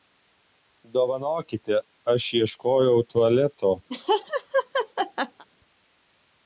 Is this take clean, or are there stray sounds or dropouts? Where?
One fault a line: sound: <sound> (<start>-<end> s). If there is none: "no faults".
sound: laugh (3.9-5.4 s)